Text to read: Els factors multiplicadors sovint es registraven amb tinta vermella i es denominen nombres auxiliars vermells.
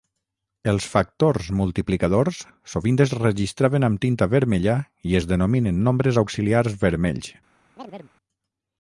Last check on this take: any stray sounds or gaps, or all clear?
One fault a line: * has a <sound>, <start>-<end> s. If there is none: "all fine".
* has a chirp, 7.8-8.1 s